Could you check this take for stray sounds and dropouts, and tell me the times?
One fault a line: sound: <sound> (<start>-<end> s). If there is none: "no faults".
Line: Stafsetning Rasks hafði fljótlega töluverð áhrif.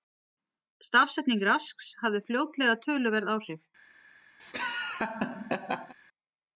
sound: laugh (4.4-5.9 s)